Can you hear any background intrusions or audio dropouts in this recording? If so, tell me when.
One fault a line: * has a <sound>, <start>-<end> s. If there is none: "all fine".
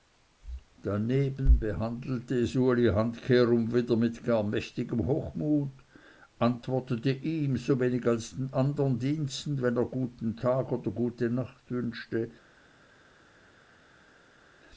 all fine